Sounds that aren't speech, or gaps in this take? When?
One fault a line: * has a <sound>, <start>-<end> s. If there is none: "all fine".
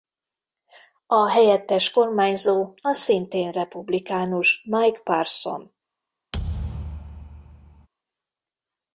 * has a thud, 6.3-7.9 s